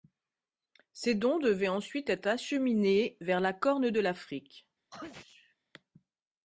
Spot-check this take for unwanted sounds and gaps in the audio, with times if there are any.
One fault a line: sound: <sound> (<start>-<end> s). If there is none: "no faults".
sound: sneeze (4.9-5.6 s)